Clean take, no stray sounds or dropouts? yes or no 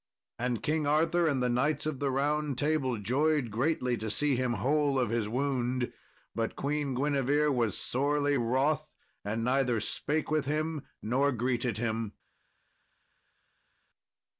yes